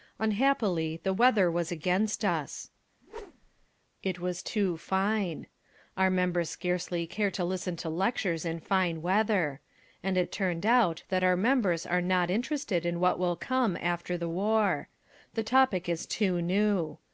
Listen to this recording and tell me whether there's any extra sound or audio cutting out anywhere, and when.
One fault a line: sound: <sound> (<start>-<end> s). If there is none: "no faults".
sound: whoosh (3.0-3.7 s)